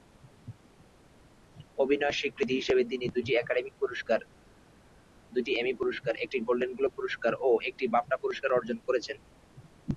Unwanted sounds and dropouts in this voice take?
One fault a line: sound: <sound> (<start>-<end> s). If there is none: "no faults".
no faults